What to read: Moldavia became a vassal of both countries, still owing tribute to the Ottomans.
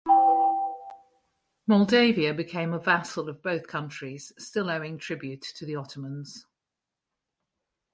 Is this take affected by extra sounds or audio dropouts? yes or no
no